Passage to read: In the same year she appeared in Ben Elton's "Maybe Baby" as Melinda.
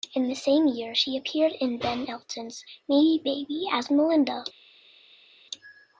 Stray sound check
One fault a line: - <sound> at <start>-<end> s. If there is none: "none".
none